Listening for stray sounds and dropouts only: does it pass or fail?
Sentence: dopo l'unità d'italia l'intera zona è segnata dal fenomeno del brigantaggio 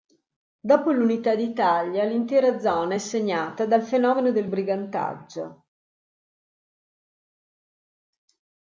pass